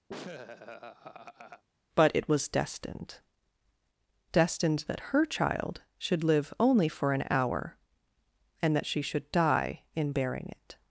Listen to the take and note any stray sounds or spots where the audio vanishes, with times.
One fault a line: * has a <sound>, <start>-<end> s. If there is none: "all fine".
* has a laugh, 0.1-1.6 s